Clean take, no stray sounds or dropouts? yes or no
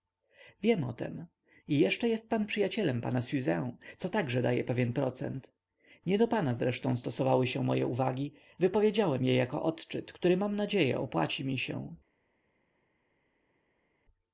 yes